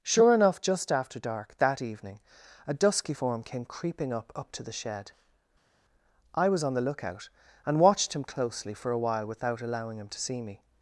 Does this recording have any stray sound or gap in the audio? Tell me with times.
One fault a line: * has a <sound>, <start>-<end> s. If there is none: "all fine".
all fine